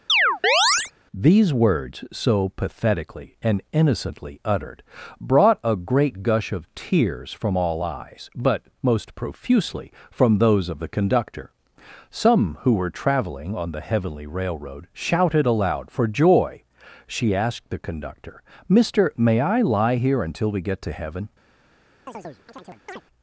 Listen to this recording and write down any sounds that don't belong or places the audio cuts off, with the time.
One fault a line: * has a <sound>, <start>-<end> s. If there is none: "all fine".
* has a chirp, 0.1-0.9 s
* has a chirp, 22.1-23.0 s